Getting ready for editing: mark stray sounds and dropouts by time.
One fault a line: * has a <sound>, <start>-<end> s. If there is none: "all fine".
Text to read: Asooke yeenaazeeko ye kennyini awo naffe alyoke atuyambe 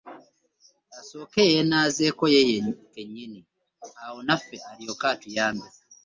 all fine